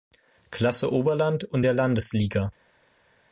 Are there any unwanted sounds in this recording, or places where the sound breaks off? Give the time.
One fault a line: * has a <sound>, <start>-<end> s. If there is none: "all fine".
all fine